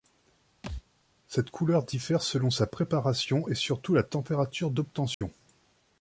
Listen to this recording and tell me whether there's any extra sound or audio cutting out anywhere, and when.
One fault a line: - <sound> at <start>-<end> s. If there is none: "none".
- thud at 0.6-0.8 s
- dropout at 5.1-5.2 s